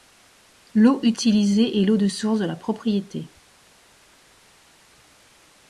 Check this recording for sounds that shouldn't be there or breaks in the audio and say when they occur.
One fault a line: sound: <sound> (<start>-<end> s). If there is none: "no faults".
no faults